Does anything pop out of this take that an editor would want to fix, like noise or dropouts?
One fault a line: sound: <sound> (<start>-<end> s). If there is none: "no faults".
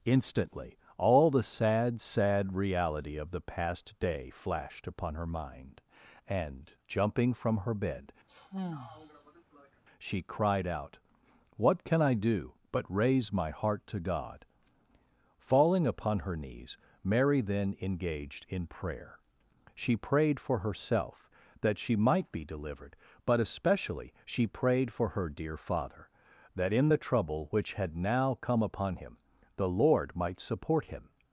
sound: sigh (8.3-9.8 s)